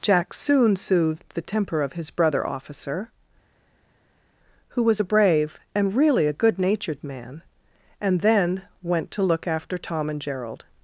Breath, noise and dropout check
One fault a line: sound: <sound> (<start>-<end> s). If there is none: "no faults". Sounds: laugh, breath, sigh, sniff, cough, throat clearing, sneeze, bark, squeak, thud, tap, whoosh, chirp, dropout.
no faults